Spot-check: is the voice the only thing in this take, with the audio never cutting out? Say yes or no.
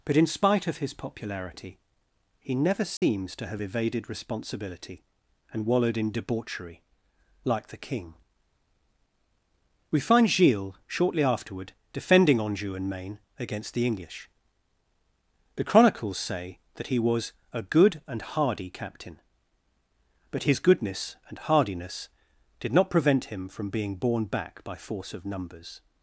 no